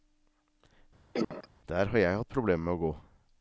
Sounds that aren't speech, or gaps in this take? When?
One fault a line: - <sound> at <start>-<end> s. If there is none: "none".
- cough at 1.1-1.5 s